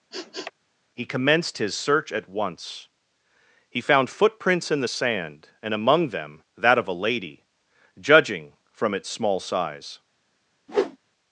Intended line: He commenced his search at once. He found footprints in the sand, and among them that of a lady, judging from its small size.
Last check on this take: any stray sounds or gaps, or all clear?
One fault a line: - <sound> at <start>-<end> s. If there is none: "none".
- sniff at 0.1-0.5 s
- whoosh at 10.7-11.0 s